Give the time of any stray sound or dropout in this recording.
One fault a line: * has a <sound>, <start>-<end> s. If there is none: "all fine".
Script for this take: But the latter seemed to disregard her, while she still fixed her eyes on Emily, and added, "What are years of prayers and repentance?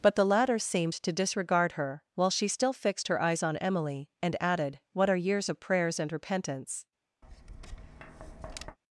* has a tap, 7.2-8.8 s